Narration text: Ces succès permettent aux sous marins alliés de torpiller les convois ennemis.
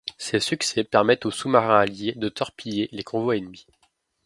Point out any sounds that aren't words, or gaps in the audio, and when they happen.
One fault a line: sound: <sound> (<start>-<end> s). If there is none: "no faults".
no faults